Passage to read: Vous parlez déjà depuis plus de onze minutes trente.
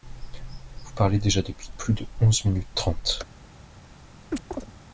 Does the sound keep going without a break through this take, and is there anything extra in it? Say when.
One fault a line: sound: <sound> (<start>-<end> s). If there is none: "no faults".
sound: chirp (4.3-4.7 s)